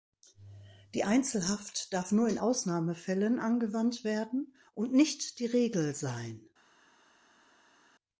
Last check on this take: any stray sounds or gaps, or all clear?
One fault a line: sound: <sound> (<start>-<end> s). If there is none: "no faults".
no faults